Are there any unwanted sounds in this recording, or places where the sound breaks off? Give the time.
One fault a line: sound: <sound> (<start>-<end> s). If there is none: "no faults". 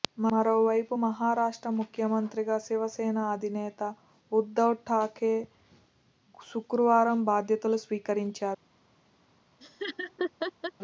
sound: laugh (9.6-10.7 s)